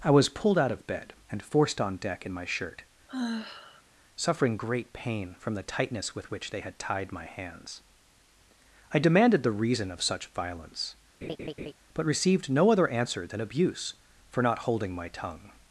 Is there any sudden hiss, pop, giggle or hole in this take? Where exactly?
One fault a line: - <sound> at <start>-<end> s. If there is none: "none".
- sigh at 3.1-3.8 s
- laugh at 11.2-11.7 s